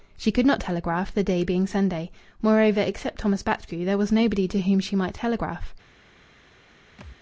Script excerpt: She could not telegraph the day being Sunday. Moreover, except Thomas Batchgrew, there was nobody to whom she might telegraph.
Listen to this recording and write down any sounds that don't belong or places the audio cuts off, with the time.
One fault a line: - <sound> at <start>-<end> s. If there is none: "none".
- thud at 7.0-7.2 s